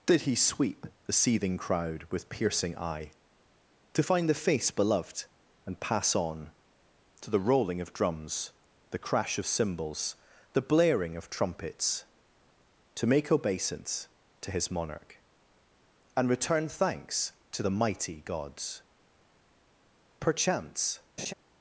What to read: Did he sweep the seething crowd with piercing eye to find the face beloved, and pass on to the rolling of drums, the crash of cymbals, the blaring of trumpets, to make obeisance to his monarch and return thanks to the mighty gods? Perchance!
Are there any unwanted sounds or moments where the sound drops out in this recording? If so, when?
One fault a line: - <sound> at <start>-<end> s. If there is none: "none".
- laugh at 21.2-21.3 s